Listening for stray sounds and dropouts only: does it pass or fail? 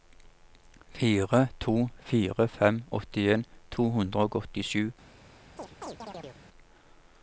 fail